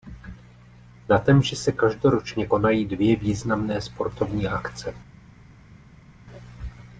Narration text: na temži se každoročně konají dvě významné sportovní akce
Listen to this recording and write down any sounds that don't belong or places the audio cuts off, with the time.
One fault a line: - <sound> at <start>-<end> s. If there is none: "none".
none